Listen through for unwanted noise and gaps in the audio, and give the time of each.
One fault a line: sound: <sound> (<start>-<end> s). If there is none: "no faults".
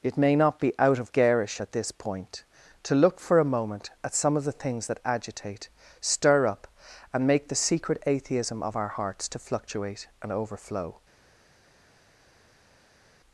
no faults